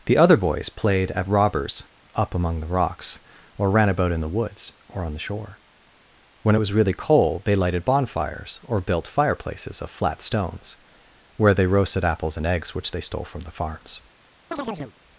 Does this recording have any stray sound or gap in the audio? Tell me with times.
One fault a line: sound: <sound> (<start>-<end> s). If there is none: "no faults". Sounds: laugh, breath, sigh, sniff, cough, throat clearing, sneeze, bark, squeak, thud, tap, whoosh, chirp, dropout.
sound: chirp (14.5-14.9 s)